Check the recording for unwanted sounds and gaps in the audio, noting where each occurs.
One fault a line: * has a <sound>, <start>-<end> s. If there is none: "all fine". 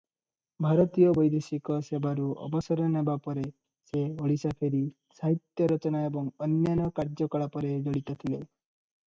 all fine